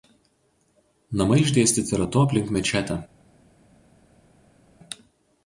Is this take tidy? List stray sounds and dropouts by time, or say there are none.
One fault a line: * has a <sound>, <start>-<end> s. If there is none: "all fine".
all fine